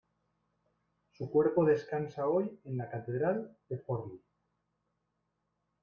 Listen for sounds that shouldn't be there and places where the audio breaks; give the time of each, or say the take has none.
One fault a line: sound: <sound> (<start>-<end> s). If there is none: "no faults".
no faults